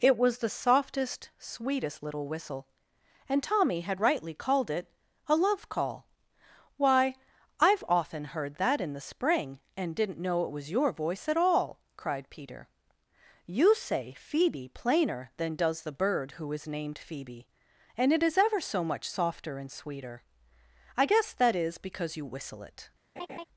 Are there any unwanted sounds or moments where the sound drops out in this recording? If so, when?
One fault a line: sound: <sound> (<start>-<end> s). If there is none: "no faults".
sound: laugh (23.2-23.5 s)